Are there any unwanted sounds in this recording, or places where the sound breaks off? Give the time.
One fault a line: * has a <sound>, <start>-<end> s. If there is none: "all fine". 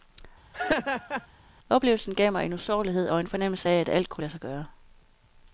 * has a laugh, 0.5-1.3 s